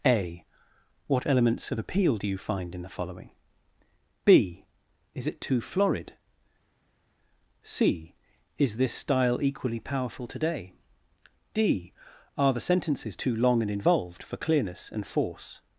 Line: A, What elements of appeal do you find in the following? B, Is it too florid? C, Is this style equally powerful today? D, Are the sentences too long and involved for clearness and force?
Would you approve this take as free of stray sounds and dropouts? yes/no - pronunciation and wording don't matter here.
yes